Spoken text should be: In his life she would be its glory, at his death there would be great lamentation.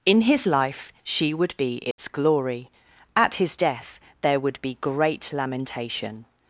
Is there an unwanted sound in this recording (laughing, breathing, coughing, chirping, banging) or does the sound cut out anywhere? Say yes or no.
yes